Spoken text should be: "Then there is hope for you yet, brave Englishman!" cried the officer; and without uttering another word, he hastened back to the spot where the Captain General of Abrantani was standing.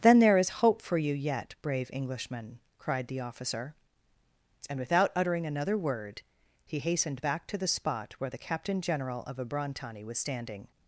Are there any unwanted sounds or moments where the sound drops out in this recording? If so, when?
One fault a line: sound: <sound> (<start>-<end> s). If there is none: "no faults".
no faults